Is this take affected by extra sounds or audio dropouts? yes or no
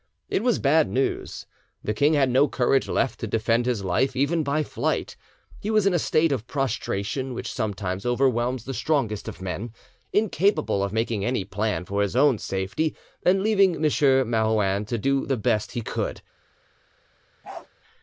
yes